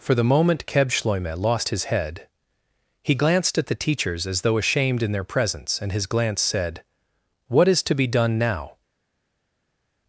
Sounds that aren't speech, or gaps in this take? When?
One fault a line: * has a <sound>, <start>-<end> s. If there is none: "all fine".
all fine